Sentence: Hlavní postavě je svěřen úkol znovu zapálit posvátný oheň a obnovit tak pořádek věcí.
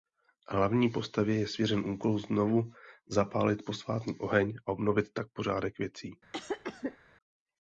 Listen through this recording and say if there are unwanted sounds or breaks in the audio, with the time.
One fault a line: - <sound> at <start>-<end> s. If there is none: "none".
- cough at 6.3-7.0 s